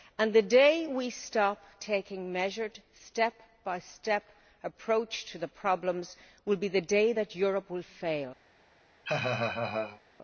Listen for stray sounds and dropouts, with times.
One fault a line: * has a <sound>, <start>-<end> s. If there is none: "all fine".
* has a laugh, 9.0-10.0 s